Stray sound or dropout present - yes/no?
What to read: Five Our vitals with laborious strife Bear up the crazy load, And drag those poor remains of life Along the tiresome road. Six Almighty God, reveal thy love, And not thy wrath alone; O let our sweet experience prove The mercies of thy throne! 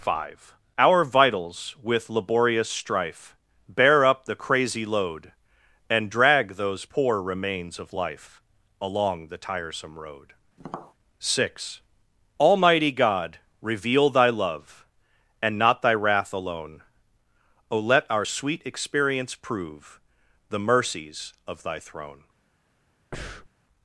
yes